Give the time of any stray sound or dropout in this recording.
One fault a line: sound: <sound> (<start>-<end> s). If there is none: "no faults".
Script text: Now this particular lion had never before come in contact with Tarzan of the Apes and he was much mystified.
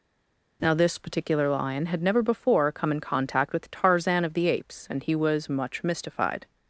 no faults